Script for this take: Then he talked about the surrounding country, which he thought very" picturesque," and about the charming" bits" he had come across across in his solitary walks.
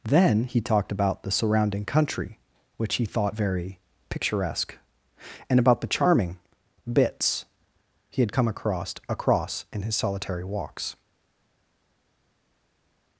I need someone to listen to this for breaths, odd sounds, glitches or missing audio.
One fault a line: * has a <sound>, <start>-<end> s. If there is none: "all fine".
all fine